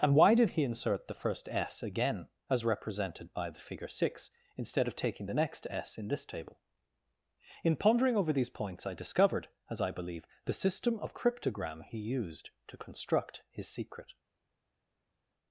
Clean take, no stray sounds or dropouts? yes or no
yes